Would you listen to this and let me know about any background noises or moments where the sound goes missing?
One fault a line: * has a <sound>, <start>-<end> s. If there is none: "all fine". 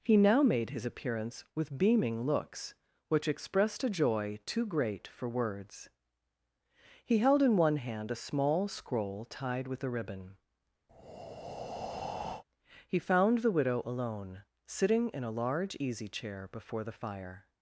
* has a breath, 10.9-12.4 s